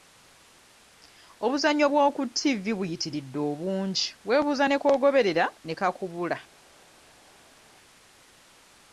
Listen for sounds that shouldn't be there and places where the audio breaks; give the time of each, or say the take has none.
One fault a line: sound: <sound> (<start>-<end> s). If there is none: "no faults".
no faults